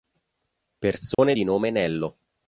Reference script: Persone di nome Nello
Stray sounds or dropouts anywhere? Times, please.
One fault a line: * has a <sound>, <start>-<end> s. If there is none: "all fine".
* has a dropout, 1.1-1.2 s